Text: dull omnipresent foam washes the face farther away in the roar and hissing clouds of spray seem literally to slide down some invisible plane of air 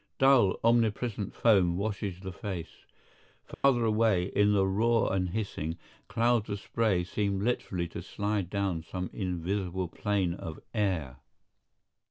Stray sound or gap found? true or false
true